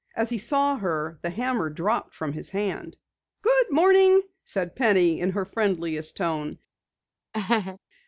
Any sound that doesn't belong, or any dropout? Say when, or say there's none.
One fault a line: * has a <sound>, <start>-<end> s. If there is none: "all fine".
* has a laugh, 7.3-7.8 s